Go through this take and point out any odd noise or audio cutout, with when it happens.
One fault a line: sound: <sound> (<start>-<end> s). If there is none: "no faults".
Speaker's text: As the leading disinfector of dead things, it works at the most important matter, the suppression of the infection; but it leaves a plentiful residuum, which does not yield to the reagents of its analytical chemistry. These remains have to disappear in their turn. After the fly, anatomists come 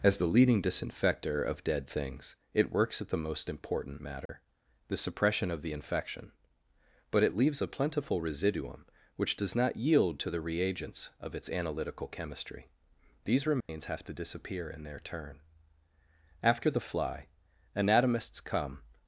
sound: dropout (4.3-4.3 s)
sound: dropout (13.6-13.7 s)